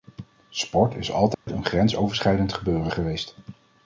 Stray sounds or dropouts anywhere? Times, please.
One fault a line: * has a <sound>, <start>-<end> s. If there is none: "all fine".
* has a dropout, 1.3-1.5 s